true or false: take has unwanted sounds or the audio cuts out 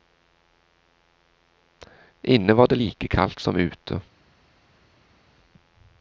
false